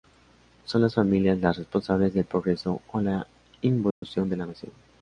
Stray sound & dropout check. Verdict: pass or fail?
fail